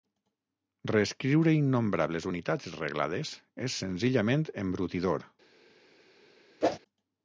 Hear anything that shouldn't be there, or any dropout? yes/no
yes